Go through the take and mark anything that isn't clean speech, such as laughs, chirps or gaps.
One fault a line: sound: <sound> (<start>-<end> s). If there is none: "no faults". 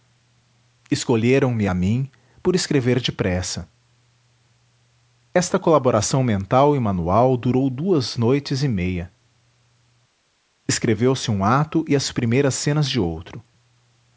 no faults